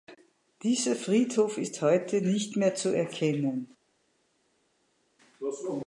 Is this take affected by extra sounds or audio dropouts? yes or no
no